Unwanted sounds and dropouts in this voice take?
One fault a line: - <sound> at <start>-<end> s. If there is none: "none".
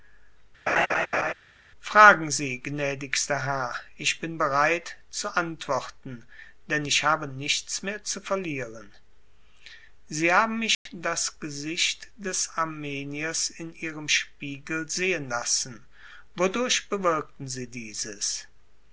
- laugh at 0.7-1.3 s
- dropout at 10.7-10.9 s